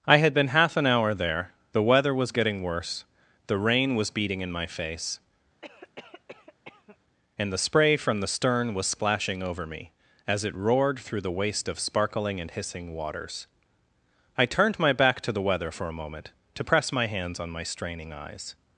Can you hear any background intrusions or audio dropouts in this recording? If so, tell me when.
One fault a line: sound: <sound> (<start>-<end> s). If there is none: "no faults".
sound: cough (5.6-7.0 s)